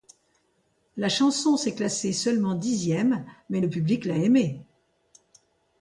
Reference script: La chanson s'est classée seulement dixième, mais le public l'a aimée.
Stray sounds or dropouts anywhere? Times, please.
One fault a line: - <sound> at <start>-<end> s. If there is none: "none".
none